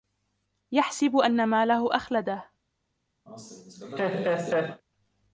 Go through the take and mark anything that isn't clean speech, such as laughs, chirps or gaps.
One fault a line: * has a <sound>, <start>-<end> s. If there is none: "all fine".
* has a laugh, 3.3-4.8 s